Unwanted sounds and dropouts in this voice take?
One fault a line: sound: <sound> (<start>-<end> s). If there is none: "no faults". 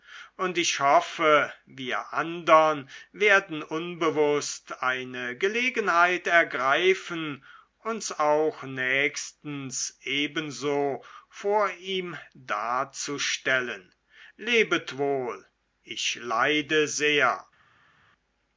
no faults